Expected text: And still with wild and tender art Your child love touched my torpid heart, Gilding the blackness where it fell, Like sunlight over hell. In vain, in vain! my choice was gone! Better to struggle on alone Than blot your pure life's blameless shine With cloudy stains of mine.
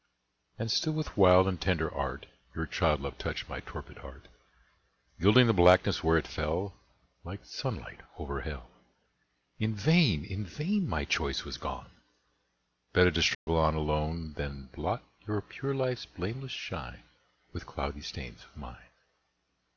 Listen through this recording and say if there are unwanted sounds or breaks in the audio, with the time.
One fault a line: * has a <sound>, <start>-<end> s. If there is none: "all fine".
* has a dropout, 13.3-13.5 s